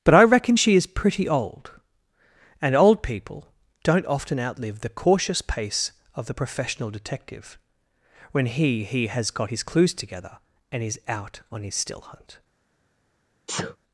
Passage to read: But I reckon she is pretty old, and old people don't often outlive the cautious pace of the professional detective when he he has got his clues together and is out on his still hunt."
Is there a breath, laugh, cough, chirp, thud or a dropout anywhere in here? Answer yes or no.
yes